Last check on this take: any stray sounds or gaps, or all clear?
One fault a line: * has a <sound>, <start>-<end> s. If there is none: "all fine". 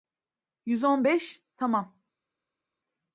all fine